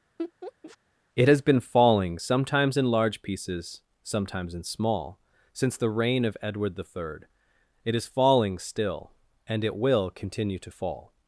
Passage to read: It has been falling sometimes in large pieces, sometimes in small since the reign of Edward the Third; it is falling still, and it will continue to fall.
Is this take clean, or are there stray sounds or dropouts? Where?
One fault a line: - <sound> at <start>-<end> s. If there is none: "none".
- laugh at 0.2-0.8 s